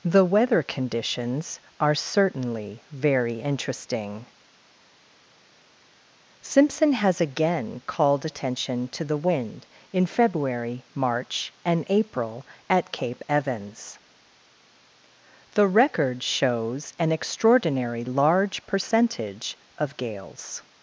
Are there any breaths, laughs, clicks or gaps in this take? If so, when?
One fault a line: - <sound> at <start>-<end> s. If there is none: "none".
none